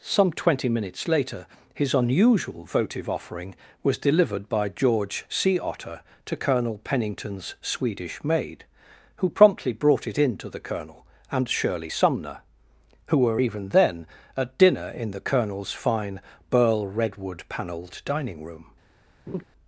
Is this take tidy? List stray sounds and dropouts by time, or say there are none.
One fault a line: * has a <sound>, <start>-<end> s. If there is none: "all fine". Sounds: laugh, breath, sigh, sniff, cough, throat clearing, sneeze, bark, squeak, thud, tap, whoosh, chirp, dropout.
* has a laugh, 19.3-19.4 s